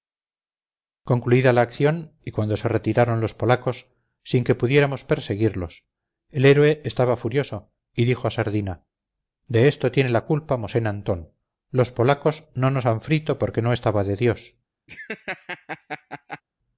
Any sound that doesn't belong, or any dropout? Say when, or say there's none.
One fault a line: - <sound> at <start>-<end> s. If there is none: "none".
- laugh at 14.9-16.4 s